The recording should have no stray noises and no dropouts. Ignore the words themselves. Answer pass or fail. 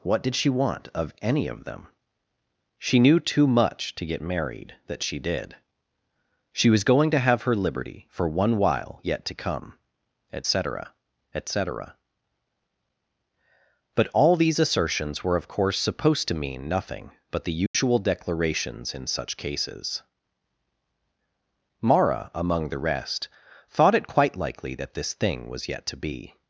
fail